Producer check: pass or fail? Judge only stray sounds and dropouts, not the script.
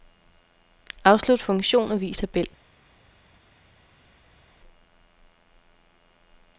pass